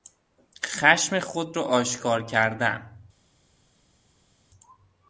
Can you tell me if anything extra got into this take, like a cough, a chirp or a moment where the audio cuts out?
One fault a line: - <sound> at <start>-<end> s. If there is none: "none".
none